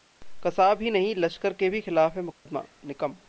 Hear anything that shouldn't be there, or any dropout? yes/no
yes